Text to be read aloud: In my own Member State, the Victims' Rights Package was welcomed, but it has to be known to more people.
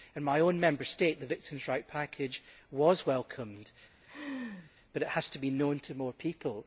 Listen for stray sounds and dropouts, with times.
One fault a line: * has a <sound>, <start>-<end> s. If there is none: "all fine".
* has a laugh, 4.0-4.7 s